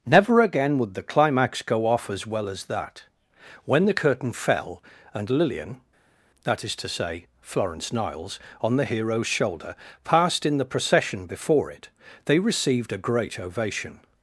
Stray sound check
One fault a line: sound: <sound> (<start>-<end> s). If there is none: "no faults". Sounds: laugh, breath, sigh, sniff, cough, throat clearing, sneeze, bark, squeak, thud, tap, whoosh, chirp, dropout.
no faults